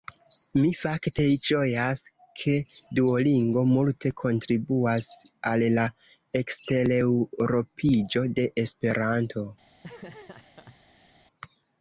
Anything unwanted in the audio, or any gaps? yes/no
yes